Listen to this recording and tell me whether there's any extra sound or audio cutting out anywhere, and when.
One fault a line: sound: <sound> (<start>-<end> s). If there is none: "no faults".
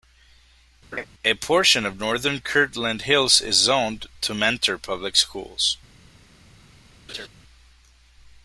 sound: laugh (0.9-1.1 s)
sound: laugh (7.1-7.3 s)